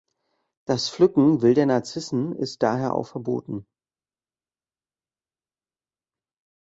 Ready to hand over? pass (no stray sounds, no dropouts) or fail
pass